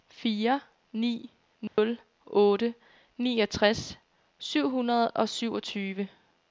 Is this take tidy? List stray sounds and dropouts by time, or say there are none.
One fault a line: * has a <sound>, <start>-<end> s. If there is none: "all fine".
* has a dropout, 1.7-1.8 s